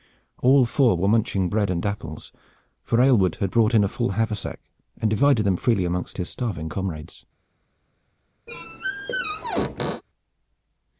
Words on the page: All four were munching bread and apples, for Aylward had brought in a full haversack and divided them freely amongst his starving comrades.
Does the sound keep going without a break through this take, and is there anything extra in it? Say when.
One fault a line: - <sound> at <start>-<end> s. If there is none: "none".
- squeak at 8.5-10.0 s